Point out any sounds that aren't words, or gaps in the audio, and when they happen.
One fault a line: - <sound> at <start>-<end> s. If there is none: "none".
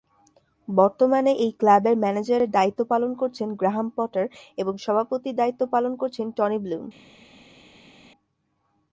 none